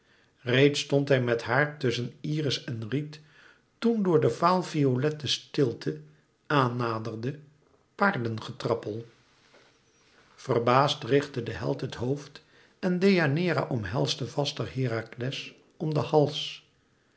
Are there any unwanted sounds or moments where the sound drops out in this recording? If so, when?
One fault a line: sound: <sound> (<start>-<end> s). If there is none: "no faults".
no faults